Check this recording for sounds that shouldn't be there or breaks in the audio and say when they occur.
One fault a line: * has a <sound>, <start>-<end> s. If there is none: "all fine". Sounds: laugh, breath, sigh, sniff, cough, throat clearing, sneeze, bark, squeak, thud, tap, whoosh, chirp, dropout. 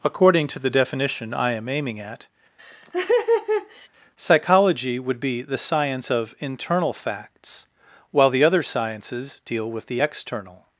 * has a laugh, 2.6-3.9 s